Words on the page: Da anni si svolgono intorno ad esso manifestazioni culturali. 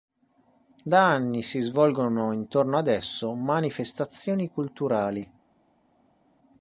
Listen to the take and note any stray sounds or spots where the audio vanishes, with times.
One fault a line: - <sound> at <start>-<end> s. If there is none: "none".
none